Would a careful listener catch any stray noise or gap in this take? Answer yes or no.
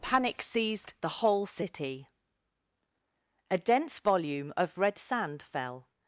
no